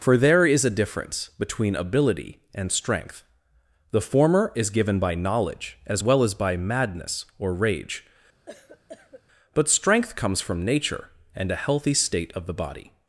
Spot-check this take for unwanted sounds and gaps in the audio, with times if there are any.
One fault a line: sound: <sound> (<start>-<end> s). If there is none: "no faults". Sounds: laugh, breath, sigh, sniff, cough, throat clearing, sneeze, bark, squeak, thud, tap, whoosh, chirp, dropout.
sound: cough (8.5-9.2 s)